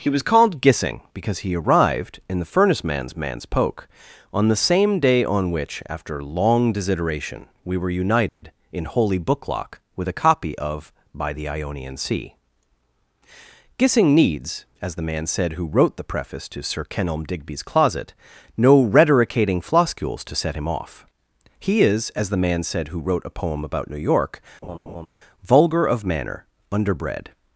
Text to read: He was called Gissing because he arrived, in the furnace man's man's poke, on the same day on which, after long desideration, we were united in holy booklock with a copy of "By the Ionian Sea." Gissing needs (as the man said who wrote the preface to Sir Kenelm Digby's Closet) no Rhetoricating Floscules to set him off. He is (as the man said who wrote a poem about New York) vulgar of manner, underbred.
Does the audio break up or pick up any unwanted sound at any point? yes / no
yes